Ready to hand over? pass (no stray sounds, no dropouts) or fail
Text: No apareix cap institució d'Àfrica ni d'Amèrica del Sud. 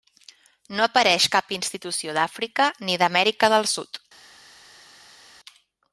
pass